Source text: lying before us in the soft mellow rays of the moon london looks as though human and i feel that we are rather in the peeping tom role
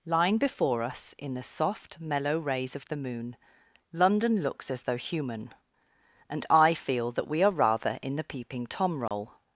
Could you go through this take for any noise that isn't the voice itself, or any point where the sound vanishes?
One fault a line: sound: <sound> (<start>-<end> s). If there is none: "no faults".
sound: dropout (9.1-9.1 s)